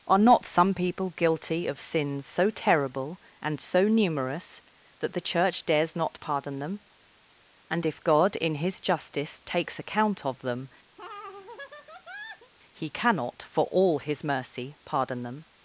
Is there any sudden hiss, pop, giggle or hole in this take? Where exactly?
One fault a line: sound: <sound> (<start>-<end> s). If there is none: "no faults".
sound: laugh (11.0-12.5 s)